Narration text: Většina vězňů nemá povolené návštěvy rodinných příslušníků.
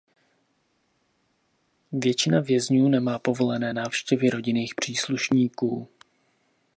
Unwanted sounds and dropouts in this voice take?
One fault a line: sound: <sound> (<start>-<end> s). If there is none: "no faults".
no faults